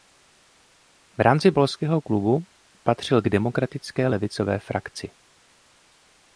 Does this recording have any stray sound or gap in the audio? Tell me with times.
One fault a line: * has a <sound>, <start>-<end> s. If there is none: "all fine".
all fine